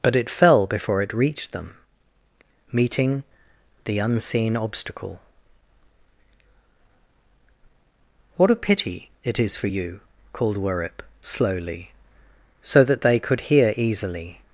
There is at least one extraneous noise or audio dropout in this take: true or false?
false